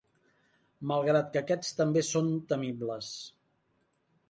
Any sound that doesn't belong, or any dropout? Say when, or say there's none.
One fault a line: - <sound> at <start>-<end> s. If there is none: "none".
none